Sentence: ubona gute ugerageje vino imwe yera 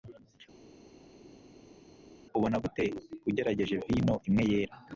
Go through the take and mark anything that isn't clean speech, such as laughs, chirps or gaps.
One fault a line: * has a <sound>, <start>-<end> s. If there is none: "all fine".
all fine